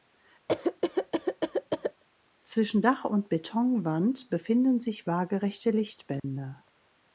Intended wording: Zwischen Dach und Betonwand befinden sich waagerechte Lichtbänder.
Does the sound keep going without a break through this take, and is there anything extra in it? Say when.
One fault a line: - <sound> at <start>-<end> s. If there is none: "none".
- cough at 0.5-2.0 s
- dropout at 6.2-6.2 s